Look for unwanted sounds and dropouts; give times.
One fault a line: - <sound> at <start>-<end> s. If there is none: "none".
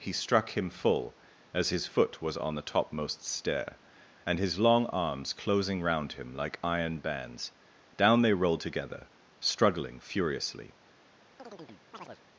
- chirp at 11.4-12.2 s